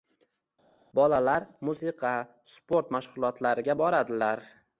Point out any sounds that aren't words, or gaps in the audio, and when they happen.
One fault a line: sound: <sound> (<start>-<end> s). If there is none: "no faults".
no faults